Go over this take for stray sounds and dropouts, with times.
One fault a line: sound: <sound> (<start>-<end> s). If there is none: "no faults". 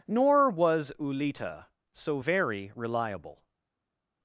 no faults